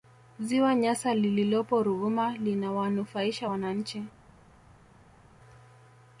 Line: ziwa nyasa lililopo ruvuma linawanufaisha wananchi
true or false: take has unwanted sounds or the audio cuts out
false